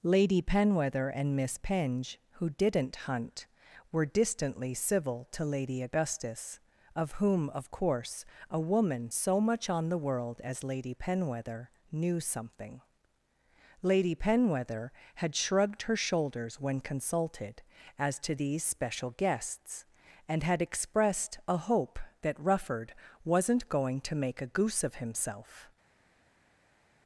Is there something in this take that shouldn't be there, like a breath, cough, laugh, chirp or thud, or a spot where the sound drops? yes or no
no